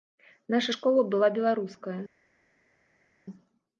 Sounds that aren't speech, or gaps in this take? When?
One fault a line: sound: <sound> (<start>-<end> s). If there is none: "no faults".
no faults